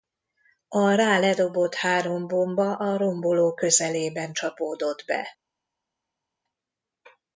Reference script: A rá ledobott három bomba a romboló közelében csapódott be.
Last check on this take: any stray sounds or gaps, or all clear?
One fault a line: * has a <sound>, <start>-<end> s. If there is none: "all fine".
all fine